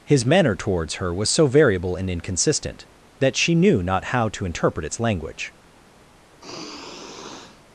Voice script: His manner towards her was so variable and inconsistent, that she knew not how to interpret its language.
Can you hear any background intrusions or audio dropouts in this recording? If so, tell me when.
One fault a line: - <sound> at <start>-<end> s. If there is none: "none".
- sigh at 6.4-7.6 s